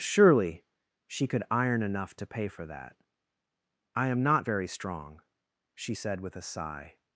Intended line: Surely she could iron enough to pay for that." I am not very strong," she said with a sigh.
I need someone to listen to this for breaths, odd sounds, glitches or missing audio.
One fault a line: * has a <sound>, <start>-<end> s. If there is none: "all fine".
all fine